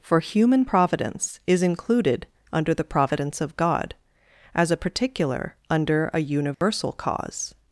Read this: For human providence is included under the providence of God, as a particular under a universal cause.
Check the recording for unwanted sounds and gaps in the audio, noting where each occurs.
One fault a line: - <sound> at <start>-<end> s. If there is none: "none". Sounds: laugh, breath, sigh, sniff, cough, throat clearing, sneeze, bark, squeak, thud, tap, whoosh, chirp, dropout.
- dropout at 6.5-6.6 s